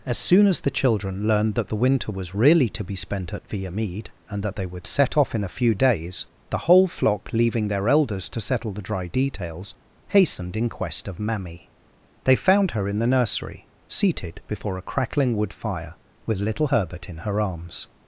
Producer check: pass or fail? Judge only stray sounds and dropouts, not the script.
pass